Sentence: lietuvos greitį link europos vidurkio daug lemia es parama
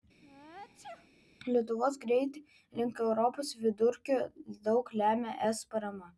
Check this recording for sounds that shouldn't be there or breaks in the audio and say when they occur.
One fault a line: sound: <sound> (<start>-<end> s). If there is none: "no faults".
sound: sneeze (0.2-1.1 s)